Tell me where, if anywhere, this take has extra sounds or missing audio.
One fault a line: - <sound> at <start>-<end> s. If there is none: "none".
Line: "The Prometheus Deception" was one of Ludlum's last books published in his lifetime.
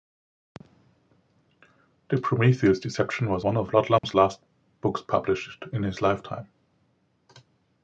- dropout at 4.0-4.0 s